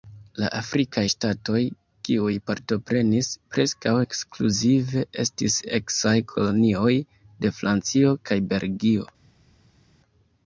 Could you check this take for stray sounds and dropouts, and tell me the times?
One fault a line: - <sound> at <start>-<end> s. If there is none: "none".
none